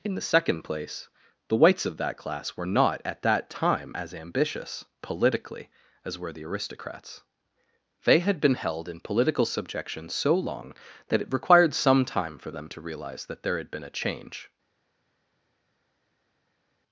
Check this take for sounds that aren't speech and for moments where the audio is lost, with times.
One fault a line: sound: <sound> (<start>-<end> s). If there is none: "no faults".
no faults